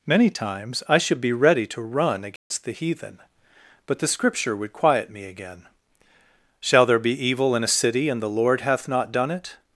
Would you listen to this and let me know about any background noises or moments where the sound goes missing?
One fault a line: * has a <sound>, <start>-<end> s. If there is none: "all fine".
* has a dropout, 2.4-2.5 s